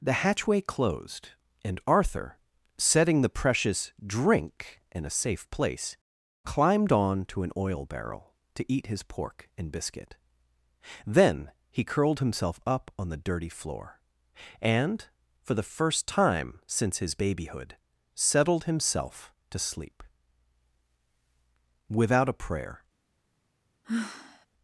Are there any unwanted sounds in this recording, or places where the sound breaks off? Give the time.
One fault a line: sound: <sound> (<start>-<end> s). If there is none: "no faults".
sound: sigh (23.8-24.5 s)